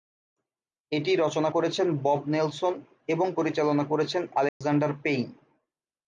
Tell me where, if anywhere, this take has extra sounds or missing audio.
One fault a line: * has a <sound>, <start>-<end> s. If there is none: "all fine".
* has a dropout, 4.5-4.6 s